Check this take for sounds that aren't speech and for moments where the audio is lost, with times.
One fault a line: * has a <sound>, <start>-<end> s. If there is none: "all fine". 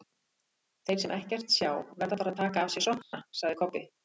* has a dropout, 3.0-3.1 s